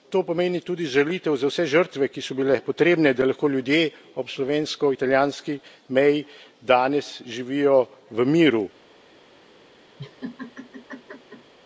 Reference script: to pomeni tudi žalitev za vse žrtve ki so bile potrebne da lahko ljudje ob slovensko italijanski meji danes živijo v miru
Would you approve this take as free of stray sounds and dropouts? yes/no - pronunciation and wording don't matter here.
no